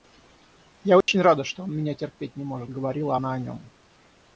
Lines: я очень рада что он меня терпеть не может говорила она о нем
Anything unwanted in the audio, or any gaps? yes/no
yes